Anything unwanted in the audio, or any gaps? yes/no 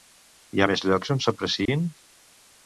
yes